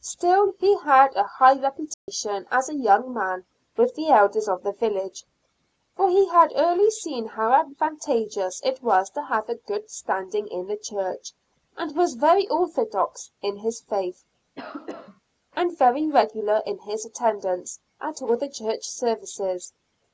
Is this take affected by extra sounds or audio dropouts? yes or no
yes